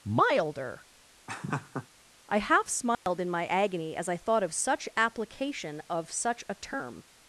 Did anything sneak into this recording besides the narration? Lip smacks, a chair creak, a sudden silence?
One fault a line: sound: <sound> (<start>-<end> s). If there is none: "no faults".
sound: laugh (1.3-1.9 s)
sound: dropout (2.9-3.1 s)